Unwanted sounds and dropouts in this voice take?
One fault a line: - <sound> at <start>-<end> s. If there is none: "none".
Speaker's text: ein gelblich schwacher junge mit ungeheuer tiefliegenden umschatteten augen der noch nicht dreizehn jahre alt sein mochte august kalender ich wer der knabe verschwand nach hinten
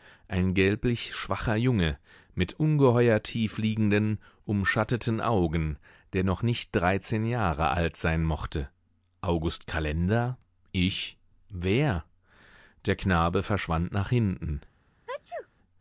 - sneeze at 15.1-15.5 s